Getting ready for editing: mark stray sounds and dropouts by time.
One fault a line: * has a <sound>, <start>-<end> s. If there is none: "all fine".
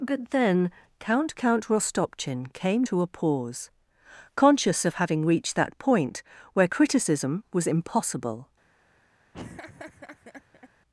* has a laugh, 9.3-10.7 s